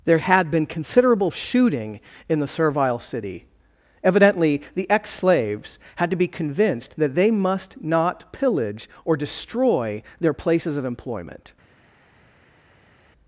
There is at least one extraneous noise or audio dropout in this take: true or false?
false